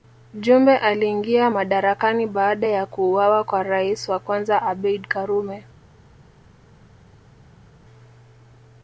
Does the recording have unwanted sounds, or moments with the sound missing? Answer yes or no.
no